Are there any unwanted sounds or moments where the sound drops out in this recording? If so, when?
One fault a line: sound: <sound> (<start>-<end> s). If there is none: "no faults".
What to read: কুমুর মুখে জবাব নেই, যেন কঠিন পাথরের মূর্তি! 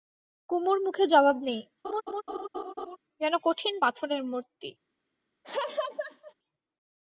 sound: laugh (1.8-3.0 s)
sound: laugh (5.4-6.3 s)